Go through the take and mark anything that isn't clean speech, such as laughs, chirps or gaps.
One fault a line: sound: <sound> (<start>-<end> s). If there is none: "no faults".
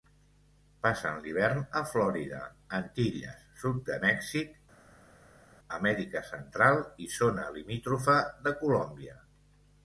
no faults